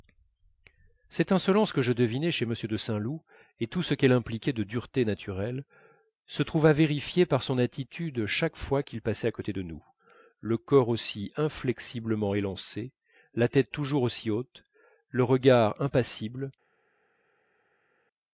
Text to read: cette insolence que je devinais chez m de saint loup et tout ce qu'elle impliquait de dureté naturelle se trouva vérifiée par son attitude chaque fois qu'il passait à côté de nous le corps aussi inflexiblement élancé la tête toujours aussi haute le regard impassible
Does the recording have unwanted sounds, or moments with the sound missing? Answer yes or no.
no